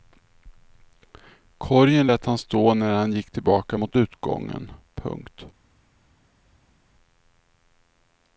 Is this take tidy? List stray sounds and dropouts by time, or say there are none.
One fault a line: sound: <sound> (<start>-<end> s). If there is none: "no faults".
no faults